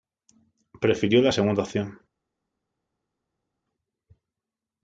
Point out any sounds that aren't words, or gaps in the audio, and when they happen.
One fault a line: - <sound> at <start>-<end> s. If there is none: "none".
none